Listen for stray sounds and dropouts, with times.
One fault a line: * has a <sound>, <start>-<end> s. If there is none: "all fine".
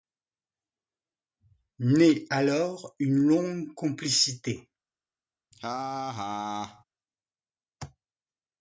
* has a laugh, 5.5-6.8 s